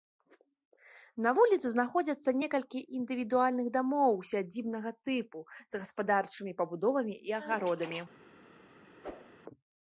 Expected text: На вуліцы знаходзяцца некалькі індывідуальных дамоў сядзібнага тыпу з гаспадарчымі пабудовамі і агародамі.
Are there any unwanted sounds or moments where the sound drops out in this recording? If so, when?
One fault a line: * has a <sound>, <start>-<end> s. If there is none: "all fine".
* has a whoosh, 9.0-9.4 s